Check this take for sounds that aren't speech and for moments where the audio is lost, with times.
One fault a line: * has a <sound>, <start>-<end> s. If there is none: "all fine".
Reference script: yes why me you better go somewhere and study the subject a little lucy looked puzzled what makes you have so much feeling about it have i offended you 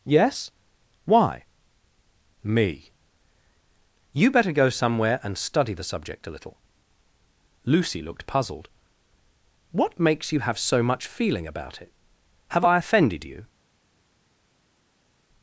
all fine